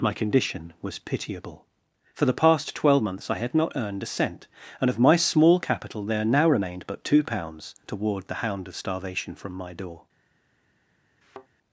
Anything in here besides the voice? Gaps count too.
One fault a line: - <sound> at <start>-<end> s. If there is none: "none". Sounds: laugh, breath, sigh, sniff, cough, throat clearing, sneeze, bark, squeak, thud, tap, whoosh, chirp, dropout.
- thud at 11.2-11.5 s